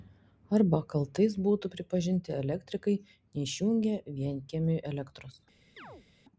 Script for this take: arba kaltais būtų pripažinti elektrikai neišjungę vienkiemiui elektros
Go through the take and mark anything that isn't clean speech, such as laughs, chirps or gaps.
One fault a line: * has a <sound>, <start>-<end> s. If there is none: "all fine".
* has a chirp, 5.8-6.1 s